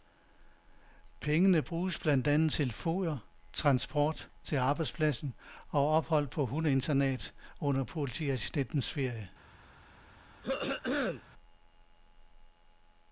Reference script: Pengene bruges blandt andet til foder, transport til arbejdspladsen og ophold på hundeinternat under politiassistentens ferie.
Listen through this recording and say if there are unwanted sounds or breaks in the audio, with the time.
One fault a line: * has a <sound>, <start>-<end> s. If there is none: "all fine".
* has a throat clearing, 10.4-11.2 s